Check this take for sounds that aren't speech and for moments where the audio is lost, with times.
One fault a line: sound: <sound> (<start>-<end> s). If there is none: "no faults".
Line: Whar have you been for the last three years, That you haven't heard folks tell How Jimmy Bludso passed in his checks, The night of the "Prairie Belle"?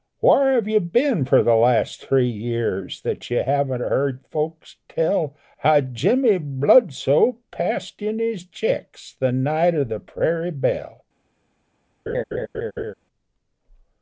sound: laugh (12.1-12.9 s)